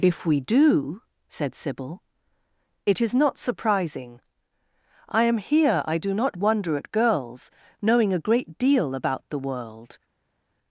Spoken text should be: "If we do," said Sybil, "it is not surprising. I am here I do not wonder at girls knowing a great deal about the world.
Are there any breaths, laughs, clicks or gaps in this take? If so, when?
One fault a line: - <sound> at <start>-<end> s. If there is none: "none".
none